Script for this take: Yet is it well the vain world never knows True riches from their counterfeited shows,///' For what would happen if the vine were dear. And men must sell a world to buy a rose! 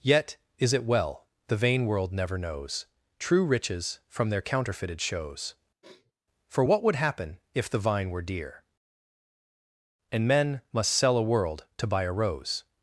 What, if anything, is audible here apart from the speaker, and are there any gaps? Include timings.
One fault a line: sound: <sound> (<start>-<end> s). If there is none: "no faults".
sound: sniff (5.8-6.1 s)